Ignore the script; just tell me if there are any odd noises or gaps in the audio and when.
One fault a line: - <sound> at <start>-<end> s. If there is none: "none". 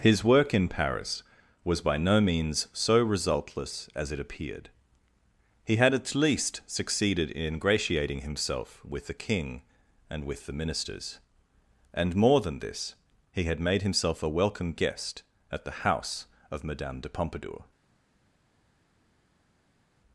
none